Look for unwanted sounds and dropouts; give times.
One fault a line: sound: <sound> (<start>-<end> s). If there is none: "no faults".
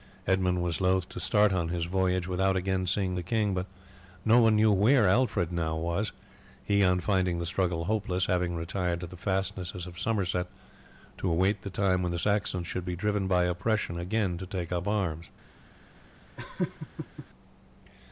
sound: laugh (16.4-17.3 s)